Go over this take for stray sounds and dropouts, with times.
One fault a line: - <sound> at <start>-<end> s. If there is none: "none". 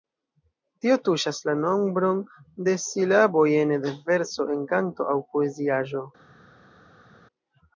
none